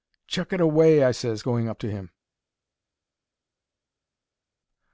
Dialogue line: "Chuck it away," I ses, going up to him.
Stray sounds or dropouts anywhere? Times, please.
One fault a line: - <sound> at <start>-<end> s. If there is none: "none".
none